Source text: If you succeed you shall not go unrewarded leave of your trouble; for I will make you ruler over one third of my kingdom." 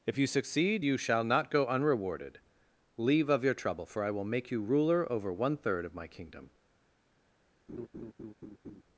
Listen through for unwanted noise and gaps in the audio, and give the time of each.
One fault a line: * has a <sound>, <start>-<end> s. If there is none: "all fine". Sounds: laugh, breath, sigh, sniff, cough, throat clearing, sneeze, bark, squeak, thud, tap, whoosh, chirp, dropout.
* has a laugh, 7.7-8.8 s